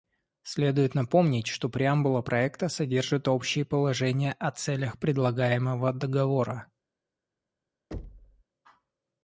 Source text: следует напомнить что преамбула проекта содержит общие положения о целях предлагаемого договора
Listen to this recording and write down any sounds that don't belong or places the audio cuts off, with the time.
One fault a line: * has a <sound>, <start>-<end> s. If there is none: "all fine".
* has a thud, 7.9-8.4 s